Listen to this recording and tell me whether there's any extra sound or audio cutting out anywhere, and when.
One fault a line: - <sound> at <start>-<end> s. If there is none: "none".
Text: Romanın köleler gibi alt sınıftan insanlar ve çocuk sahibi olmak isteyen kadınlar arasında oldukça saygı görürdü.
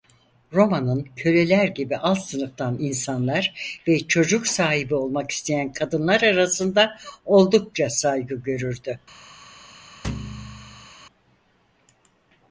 - thud at 10.0-10.9 s